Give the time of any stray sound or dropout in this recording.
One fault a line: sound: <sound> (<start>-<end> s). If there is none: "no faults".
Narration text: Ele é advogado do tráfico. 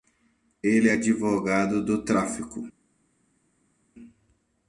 no faults